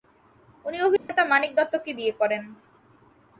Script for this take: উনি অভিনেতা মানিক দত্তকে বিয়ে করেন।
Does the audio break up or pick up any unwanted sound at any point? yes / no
yes